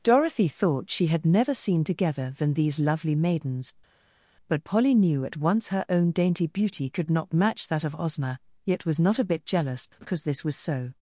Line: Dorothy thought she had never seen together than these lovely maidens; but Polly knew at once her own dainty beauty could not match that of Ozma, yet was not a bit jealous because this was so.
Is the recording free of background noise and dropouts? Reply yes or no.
yes